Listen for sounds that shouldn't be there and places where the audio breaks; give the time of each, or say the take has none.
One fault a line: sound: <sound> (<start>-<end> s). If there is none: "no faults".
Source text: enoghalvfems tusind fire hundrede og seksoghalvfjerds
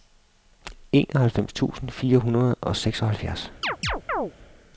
sound: chirp (3.6-4.3 s)